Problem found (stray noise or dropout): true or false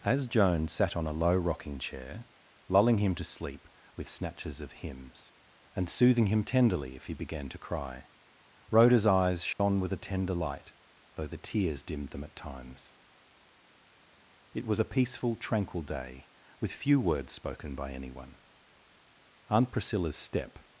true